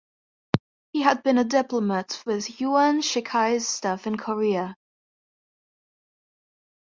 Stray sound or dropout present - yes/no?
no